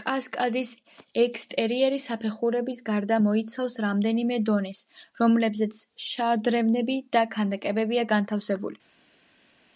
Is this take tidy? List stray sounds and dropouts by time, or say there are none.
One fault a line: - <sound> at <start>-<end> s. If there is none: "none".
none